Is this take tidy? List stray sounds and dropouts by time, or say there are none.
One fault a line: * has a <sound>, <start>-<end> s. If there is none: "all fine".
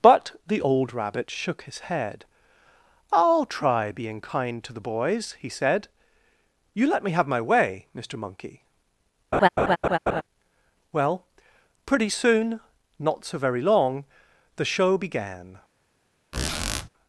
* has a laugh, 9.3-10.2 s
* has a squeak, 16.3-16.9 s